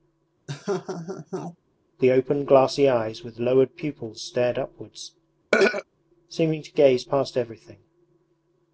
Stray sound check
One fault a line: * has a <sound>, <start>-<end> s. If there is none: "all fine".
* has a laugh, 0.5-1.6 s
* has a throat clearing, 5.5-5.8 s